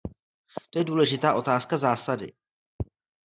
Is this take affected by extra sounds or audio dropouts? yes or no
no